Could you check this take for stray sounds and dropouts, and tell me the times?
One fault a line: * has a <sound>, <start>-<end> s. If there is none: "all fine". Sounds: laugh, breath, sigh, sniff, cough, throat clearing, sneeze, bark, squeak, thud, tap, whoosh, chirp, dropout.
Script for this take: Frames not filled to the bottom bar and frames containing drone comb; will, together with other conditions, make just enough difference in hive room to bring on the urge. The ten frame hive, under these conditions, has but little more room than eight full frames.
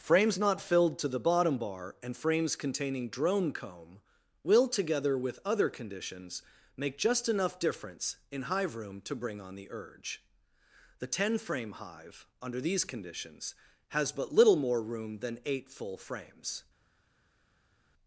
all fine